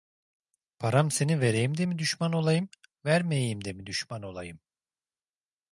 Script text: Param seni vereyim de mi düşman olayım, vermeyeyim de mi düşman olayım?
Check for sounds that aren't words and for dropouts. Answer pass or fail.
pass